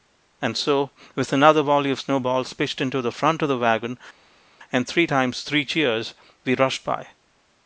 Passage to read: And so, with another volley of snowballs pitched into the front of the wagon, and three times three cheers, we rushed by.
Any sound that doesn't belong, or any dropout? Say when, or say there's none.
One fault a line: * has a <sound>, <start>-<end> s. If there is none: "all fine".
all fine